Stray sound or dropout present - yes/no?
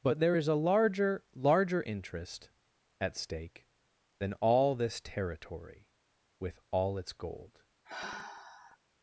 yes